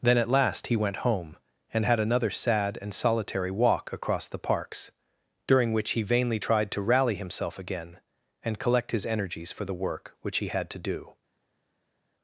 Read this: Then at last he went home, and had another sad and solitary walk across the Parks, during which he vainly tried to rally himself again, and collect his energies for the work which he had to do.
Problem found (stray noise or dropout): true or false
false